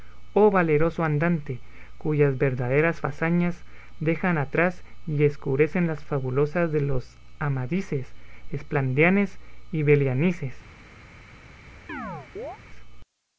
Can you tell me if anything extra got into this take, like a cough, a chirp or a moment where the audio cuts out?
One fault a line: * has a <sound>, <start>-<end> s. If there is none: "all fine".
* has a chirp, 11.9-12.6 s